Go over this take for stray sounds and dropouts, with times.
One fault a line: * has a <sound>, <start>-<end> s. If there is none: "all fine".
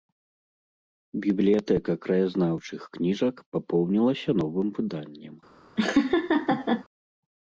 * has a laugh, 5.8-6.8 s